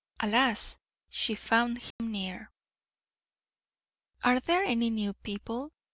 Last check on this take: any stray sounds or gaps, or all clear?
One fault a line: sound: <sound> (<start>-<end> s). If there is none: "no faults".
sound: dropout (1.9-2.0 s)